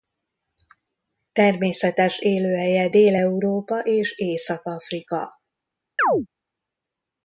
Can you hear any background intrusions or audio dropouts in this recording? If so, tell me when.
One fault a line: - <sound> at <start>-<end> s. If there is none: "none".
- chirp at 6.0-6.3 s